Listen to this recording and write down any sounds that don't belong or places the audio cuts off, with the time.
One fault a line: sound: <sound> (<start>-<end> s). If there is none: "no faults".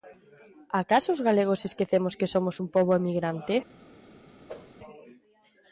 sound: whoosh (4.5-4.7 s)